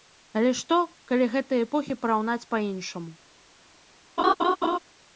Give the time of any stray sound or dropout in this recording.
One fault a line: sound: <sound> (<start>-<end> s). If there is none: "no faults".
sound: laugh (4.2-4.8 s)